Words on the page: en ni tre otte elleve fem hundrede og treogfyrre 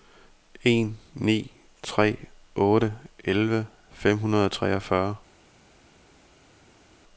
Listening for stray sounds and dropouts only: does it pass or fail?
pass